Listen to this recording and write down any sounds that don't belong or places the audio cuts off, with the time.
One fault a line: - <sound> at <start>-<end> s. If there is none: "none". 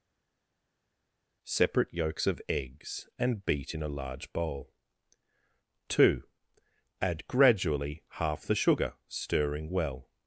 none